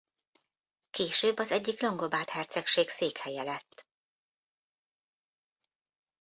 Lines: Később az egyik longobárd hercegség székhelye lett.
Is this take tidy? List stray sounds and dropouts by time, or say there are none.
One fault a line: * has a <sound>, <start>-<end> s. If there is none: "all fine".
all fine